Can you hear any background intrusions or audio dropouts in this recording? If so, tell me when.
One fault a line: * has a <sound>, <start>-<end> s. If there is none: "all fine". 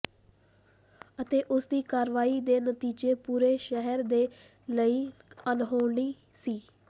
all fine